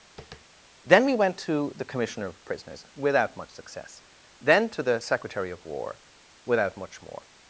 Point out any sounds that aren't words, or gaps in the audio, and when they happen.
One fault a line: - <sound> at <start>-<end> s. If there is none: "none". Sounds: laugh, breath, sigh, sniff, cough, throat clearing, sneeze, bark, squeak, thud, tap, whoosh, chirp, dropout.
- tap at 0.2-0.5 s